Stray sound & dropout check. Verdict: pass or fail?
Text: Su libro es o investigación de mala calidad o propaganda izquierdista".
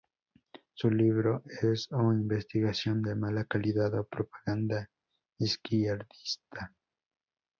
pass